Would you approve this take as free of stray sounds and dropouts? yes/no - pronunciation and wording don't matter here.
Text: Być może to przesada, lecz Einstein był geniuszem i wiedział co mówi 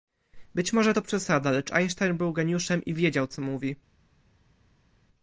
yes